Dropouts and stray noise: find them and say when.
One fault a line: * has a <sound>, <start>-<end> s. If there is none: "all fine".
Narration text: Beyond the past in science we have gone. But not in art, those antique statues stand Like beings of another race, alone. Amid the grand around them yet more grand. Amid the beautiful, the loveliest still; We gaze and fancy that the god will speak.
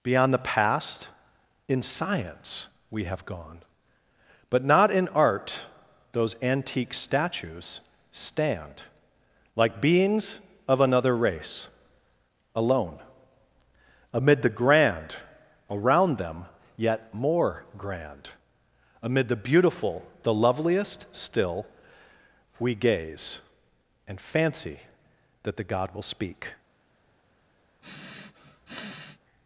* has a sniff, 27.8-29.2 s